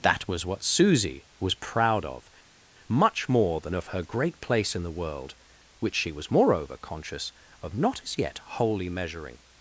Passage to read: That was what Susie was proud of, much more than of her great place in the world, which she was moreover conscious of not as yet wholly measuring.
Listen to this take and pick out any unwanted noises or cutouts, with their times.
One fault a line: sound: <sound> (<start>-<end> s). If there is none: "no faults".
no faults